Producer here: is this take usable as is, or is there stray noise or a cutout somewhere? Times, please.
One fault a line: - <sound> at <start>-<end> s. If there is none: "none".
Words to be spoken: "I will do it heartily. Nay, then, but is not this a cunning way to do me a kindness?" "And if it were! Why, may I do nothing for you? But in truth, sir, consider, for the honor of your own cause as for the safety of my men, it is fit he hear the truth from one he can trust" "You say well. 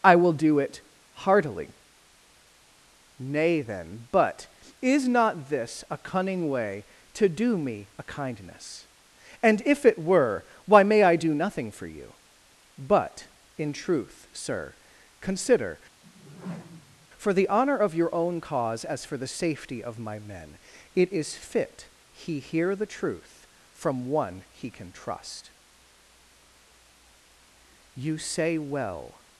- whoosh at 16.0-17.1 s